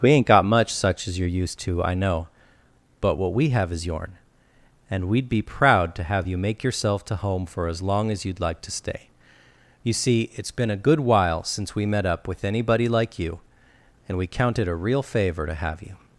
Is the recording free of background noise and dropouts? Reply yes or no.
yes